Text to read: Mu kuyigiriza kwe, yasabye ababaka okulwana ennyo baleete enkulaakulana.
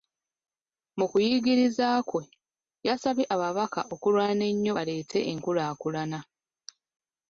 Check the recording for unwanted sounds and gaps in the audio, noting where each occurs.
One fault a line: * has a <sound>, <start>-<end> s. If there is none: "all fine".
all fine